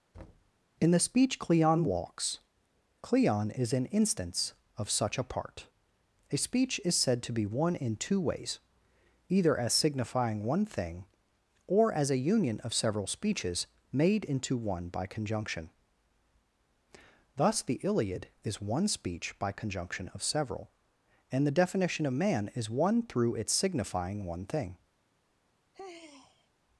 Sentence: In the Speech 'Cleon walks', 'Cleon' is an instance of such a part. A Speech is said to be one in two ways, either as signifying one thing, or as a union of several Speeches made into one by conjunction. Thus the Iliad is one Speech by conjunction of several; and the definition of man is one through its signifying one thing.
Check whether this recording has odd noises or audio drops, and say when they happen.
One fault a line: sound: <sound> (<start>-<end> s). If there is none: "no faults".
sound: thud (0.1-0.5 s)
sound: sigh (25.7-26.5 s)